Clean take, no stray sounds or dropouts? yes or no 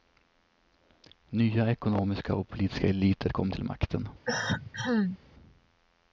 no